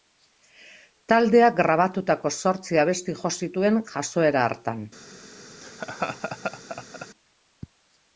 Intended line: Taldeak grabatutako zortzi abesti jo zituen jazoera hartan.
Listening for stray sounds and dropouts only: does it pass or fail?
fail